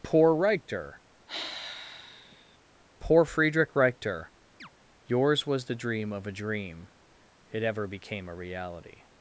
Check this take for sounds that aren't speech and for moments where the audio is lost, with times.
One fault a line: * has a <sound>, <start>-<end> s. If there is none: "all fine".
* has a sigh, 1.3-2.6 s
* has a chirp, 4.6-4.7 s